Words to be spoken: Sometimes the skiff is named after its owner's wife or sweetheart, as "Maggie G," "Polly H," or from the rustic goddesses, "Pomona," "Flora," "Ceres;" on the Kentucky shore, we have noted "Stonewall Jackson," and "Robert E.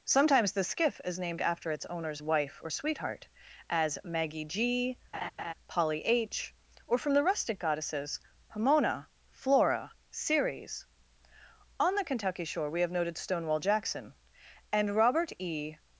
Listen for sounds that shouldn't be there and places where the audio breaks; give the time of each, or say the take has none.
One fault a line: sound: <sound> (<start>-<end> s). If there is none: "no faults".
sound: laugh (5.1-5.5 s)